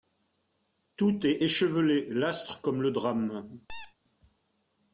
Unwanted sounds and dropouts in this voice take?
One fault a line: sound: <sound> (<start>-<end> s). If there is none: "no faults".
sound: squeak (3.7-4.0 s)